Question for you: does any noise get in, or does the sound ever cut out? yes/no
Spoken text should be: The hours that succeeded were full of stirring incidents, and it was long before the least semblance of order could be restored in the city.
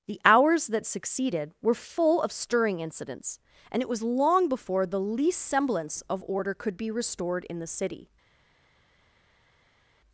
no